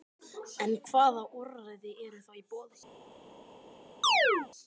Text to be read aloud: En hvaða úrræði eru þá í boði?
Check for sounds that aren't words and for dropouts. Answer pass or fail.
fail